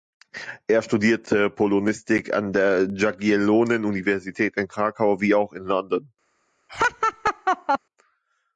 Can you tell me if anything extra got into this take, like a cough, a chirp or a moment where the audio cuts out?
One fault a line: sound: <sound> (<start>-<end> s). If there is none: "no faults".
sound: laugh (6.7-7.8 s)